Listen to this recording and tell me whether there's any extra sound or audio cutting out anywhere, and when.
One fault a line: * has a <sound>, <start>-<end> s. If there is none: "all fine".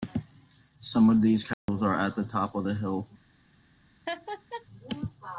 * has a dropout, 1.5-1.7 s
* has a laugh, 4.1-4.7 s